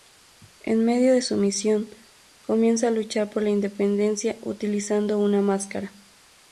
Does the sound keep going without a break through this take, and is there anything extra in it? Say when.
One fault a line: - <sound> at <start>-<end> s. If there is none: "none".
none